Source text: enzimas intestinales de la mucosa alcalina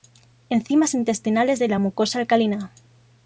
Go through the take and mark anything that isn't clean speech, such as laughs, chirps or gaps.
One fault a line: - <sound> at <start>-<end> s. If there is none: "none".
none